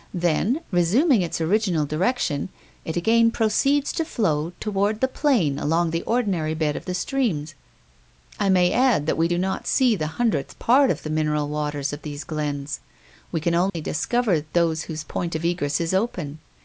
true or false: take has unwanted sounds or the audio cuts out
true